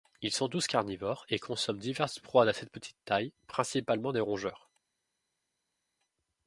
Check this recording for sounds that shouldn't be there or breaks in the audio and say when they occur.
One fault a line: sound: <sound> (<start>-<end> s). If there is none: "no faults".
no faults